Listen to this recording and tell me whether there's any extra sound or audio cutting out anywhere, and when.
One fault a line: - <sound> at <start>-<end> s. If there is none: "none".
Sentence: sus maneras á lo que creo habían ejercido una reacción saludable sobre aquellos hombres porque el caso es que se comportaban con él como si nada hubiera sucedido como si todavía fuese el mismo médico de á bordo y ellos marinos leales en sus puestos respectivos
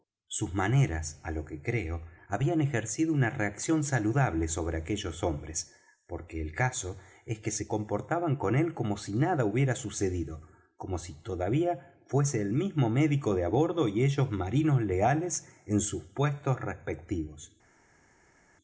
none